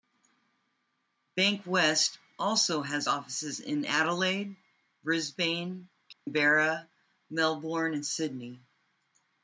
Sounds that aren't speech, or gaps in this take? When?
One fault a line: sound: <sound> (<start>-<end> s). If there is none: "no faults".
sound: dropout (6.1-6.3 s)